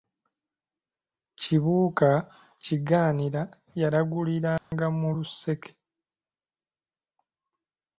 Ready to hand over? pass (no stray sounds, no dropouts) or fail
fail